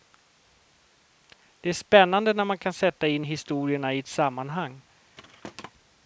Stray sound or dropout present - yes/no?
yes